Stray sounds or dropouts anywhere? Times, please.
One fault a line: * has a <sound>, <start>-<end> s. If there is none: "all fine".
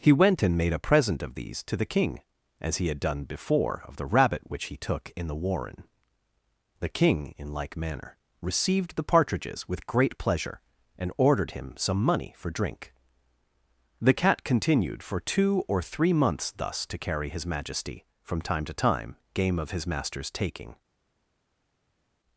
all fine